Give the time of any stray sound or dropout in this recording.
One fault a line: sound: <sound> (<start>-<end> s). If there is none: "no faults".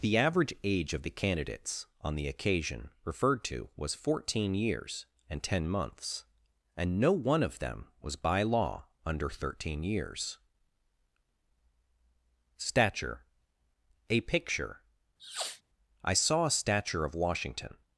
sound: sniff (15.2-15.6 s)